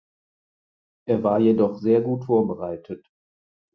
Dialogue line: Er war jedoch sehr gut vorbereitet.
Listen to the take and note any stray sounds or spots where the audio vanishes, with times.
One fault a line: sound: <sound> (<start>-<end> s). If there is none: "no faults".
no faults